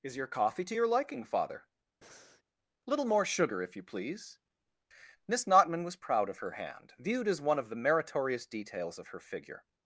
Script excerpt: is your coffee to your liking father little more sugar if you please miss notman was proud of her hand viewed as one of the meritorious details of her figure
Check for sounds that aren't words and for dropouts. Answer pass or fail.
fail